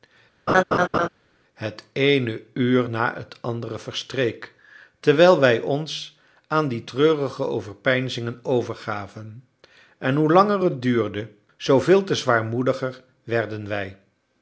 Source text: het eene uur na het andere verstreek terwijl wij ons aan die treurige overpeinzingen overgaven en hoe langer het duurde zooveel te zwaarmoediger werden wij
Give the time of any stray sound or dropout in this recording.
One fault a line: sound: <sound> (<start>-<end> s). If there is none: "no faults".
sound: laugh (0.5-1.1 s)